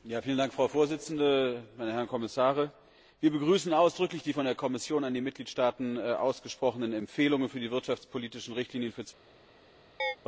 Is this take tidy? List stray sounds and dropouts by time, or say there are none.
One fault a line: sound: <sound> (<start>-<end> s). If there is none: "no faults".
sound: chirp (10.0-10.2 s)